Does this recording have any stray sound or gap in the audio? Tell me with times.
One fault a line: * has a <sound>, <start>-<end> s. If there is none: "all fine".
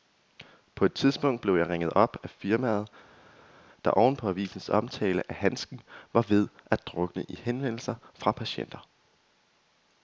all fine